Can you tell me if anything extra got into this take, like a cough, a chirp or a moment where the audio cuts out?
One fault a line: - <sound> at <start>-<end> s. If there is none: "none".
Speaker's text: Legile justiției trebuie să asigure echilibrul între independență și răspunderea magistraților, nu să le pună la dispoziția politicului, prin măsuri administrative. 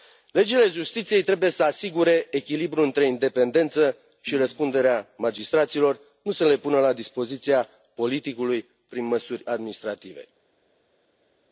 none